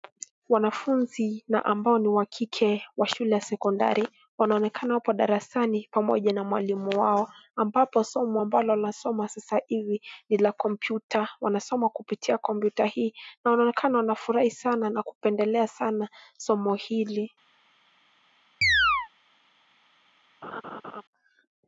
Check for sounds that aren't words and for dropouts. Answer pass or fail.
fail